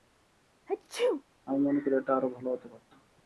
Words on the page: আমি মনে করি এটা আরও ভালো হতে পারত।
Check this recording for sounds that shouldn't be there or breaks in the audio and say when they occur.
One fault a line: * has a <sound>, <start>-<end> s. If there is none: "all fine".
* has a sneeze, 0.7-1.2 s